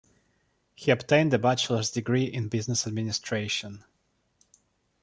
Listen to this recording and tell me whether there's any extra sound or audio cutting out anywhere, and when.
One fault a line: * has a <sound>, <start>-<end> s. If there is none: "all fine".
all fine